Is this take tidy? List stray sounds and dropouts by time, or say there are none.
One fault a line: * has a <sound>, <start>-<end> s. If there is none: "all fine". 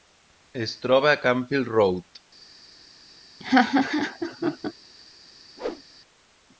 * has a laugh, 3.4-4.7 s
* has a whoosh, 5.6-5.8 s